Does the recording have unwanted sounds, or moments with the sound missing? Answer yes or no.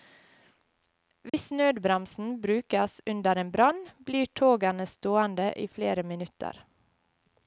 yes